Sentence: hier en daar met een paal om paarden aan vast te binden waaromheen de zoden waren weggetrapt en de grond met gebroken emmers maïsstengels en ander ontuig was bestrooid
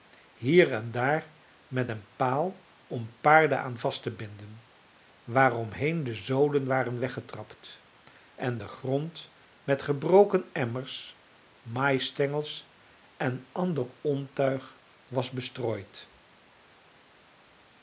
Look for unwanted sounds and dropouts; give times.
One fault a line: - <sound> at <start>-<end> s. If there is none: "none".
none